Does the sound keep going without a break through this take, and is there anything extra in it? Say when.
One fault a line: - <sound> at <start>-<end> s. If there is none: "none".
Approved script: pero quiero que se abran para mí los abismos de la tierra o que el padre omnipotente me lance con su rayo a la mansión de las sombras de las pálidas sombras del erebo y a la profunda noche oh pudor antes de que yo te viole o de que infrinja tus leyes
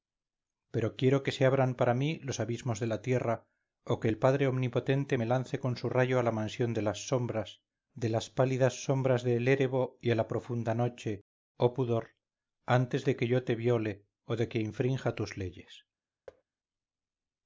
- thud at 16.3-16.4 s